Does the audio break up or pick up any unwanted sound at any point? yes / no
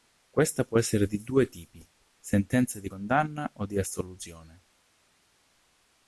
no